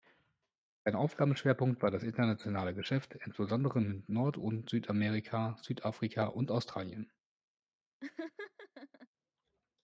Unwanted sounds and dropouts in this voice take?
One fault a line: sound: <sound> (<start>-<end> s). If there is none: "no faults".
sound: laugh (8.0-9.1 s)